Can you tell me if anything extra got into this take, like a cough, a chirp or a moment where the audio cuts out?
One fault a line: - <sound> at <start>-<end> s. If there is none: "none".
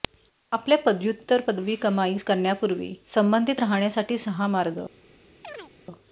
- chirp at 5.4-5.7 s